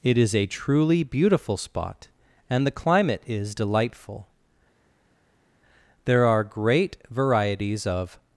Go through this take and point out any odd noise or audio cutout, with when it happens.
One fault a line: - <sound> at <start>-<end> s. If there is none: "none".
none